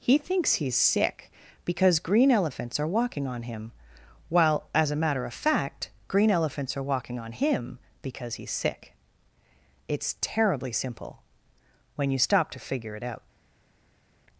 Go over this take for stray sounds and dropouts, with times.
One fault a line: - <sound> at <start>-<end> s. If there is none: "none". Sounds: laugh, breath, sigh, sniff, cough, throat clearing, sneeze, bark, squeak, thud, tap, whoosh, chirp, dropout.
none